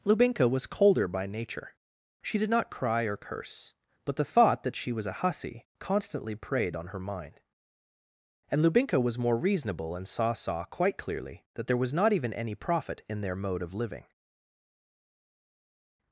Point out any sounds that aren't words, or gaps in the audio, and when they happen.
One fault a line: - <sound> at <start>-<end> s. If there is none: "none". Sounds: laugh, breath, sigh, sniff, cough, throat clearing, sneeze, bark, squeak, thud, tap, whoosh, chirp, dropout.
none